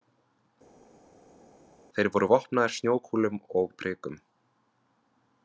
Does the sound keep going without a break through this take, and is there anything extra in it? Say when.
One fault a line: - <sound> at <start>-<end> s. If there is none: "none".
none